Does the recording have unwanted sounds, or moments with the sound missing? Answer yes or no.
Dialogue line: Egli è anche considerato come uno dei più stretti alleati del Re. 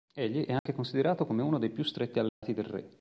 yes